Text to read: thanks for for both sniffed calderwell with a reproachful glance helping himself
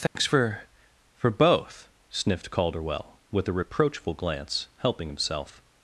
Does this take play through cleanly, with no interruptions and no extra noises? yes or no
no